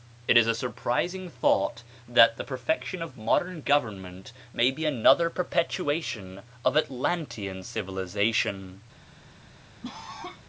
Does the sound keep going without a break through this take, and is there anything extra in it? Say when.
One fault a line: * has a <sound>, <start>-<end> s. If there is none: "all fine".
* has a cough, 9.8-10.4 s